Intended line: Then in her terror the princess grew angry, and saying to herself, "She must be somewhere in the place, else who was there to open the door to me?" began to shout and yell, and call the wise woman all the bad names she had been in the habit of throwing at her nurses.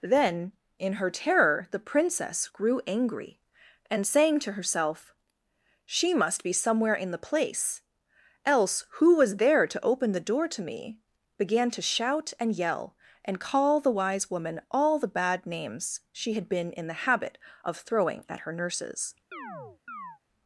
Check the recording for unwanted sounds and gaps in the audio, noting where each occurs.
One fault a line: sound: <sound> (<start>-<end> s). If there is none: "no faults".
sound: chirp (19.3-20.2 s)